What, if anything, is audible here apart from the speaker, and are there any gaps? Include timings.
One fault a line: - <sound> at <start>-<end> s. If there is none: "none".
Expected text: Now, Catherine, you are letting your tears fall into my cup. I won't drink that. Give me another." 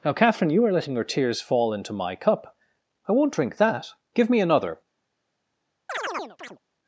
- chirp at 5.9-6.6 s